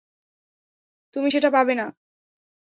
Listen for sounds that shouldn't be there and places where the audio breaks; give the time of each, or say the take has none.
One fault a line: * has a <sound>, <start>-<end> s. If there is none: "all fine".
all fine